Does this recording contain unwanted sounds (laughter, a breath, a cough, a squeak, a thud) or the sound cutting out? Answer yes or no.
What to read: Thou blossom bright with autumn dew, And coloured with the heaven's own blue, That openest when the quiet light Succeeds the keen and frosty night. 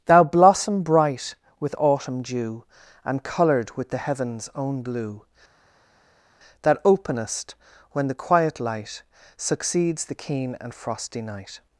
no